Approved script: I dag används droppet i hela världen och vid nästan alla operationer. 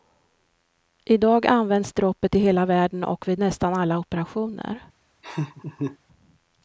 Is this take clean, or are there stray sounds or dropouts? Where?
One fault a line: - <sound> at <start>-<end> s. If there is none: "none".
- laugh at 5.2-6.0 s